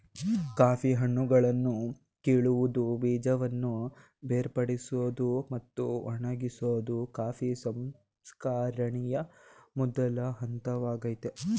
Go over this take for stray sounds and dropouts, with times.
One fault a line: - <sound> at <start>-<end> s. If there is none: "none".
none